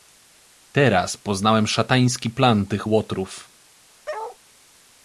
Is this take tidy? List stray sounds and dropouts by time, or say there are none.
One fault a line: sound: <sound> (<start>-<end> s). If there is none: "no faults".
sound: bark (4.1-4.4 s)